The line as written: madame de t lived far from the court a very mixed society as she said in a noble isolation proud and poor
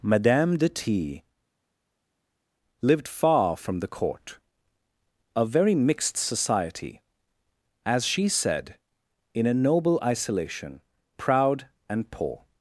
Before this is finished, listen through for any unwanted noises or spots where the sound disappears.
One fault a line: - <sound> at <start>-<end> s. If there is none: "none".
none